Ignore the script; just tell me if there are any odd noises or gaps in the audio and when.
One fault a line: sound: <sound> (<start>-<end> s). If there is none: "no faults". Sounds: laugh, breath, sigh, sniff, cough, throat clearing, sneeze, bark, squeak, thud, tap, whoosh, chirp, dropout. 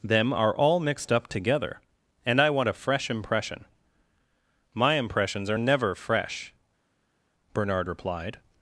no faults